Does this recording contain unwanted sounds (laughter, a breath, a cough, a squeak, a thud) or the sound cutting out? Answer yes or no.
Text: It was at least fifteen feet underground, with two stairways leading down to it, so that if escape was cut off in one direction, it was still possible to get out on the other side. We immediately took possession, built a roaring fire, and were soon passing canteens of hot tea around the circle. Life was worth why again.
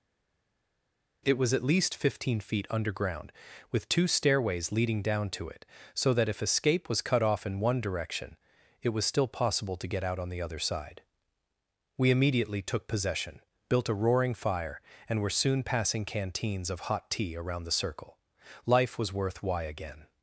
no